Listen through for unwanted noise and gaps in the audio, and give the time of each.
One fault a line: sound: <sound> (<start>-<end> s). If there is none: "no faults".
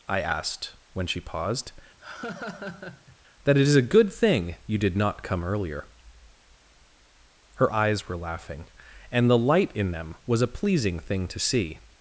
sound: laugh (2.0-3.2 s)